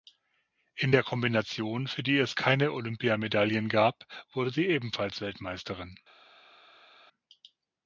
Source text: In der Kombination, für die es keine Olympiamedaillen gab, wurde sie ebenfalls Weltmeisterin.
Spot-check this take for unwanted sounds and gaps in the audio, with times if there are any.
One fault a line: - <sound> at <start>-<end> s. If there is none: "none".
none